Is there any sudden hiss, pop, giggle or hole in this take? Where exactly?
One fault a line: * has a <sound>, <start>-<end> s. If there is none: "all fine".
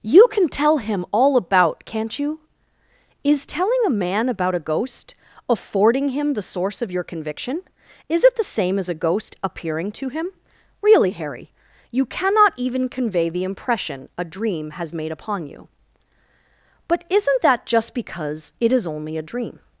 all fine